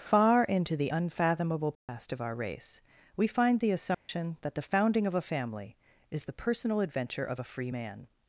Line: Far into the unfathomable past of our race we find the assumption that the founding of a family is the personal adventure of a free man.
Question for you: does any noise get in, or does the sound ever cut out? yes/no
yes